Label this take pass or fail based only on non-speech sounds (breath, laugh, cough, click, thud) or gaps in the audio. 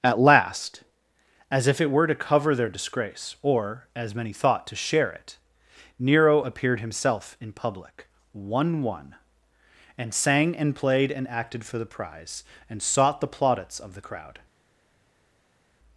pass